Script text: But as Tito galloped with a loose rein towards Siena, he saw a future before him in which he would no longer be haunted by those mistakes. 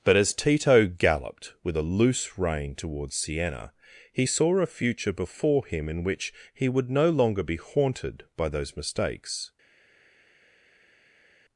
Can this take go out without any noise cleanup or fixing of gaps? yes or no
yes